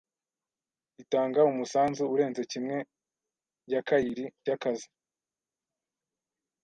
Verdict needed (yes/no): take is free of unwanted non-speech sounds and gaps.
yes